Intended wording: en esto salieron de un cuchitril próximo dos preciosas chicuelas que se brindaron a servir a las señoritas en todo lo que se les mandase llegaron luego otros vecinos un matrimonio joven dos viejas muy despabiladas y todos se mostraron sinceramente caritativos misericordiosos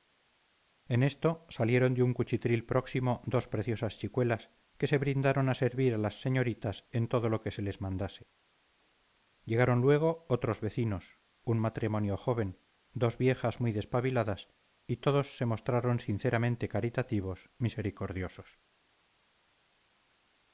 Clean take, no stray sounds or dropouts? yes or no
yes